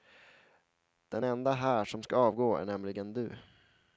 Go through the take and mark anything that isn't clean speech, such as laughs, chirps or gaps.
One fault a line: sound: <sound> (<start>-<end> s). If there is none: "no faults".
no faults